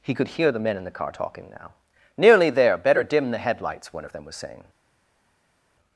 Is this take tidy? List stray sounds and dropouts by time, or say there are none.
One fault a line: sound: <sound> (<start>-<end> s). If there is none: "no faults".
no faults